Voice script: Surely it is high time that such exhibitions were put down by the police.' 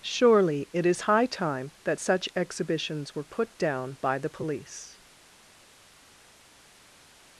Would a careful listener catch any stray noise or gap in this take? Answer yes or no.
no